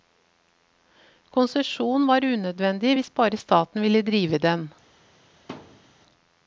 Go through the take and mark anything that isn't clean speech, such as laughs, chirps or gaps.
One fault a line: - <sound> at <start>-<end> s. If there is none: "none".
- thud at 5.5-5.9 s